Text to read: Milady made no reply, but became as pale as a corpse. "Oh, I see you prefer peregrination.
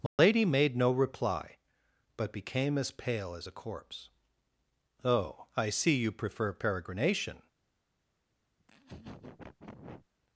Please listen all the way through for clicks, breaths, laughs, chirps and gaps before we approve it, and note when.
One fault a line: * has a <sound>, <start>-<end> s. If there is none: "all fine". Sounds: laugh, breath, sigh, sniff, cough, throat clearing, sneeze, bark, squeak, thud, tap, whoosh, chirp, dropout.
* has a dropout, 0.1-0.2 s
* has a laugh, 8.6-10.1 s